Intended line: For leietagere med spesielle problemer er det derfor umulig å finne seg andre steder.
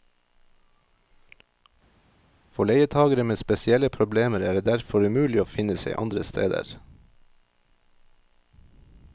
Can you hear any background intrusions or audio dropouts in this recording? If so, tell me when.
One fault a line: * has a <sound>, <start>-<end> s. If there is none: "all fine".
all fine